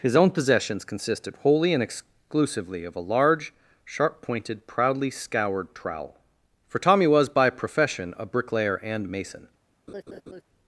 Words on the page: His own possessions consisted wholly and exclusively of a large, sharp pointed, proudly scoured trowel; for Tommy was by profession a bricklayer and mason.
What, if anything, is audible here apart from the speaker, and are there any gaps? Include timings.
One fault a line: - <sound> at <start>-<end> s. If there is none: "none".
- laugh at 9.9-10.4 s